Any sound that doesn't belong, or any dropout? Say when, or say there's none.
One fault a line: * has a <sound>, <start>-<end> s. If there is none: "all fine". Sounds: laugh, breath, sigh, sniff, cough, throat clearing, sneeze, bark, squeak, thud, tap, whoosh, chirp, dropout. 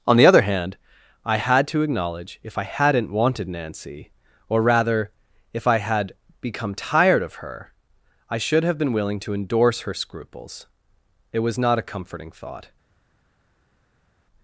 all fine